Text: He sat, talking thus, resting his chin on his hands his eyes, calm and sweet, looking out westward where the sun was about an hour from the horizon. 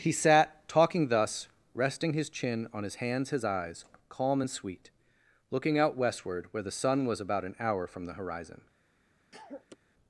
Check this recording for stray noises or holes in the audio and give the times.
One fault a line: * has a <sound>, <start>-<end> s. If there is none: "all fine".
* has a cough, 9.3-9.8 s